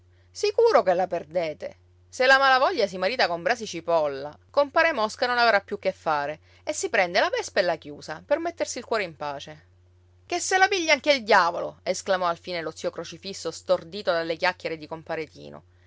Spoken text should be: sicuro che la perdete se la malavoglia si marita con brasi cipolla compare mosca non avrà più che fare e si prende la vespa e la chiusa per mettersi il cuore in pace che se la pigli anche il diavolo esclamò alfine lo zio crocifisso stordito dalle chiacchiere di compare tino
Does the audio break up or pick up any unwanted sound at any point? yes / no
no